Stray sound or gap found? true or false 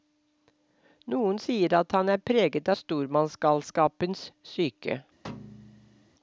true